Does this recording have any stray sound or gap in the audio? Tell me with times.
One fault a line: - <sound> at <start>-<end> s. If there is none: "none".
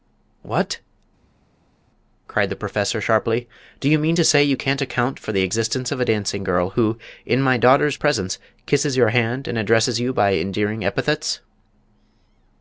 none